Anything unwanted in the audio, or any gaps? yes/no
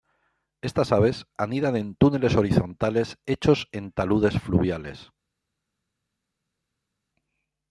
no